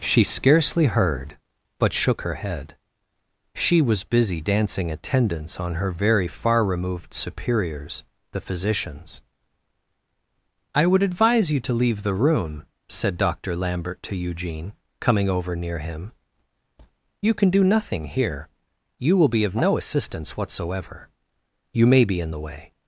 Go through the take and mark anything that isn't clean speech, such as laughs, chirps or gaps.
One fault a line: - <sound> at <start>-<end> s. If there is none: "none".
none